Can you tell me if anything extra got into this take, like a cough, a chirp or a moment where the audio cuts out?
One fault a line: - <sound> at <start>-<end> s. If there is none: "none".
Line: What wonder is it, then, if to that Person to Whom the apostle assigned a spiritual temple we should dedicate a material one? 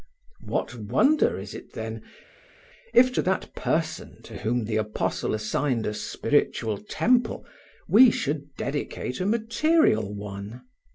none